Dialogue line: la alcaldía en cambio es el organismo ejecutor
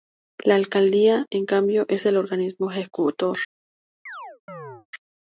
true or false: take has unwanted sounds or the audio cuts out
true